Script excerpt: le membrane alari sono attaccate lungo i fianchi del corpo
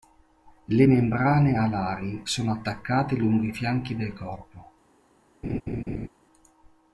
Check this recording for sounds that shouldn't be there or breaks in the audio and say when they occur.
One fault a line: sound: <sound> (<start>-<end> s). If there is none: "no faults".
sound: laugh (5.4-6.1 s)